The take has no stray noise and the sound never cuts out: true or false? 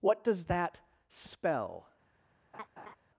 false